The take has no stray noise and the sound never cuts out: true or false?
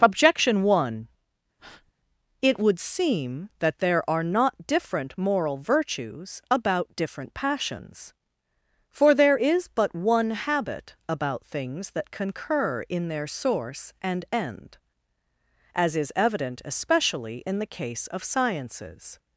false